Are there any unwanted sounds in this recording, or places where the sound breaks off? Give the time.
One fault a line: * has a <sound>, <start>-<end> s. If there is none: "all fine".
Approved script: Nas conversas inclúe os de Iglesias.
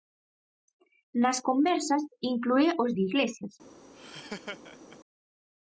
* has a laugh, 3.9-5.0 s